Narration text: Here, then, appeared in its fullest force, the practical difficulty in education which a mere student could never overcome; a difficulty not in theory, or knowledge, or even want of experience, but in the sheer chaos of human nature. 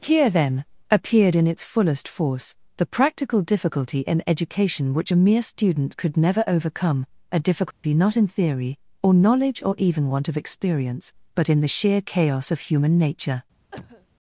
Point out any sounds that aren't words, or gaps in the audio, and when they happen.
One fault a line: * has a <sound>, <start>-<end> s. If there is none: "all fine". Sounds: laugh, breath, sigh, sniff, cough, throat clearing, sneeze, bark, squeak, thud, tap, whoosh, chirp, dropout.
* has a dropout, 7.7-7.8 s
* has a cough, 13.7-14.1 s